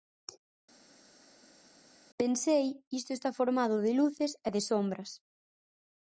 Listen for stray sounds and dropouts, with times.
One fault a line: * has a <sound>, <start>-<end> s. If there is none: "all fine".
all fine